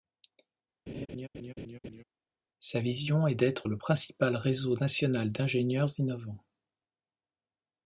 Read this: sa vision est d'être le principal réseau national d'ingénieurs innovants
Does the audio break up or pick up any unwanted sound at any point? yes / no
yes